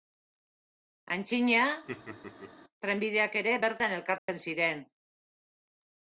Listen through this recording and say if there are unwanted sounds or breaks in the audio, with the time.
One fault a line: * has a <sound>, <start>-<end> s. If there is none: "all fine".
* has a laugh, 1.9-2.5 s
* has a dropout, 4.2-4.3 s